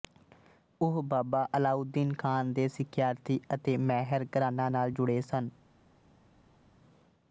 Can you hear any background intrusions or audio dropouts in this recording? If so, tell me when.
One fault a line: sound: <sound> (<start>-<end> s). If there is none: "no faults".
no faults